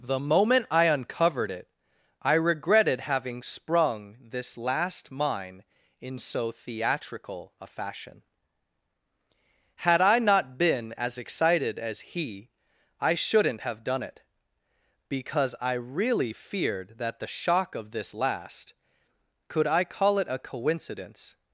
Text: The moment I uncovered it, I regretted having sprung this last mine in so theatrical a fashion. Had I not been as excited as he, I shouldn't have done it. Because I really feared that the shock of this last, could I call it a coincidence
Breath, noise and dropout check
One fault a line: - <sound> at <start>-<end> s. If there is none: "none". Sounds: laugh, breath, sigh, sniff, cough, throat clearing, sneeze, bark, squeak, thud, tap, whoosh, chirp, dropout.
none